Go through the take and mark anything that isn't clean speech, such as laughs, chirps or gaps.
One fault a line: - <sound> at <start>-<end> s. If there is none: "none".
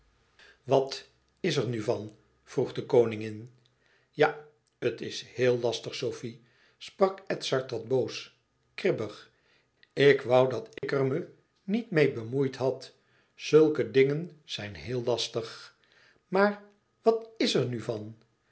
- dropout at 10.8-10.8 s